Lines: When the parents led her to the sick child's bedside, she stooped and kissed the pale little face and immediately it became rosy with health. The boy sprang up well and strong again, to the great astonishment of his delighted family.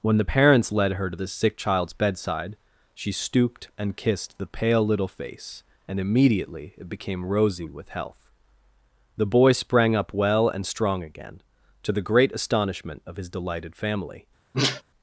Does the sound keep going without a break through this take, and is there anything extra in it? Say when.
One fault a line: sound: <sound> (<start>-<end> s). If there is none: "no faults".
sound: sneeze (14.5-14.8 s)